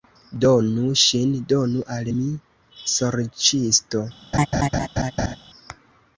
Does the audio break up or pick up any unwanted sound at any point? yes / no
yes